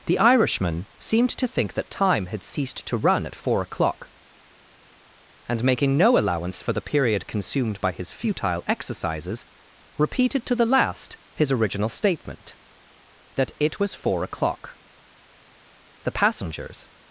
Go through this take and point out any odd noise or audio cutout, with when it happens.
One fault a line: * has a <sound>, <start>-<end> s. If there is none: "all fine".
all fine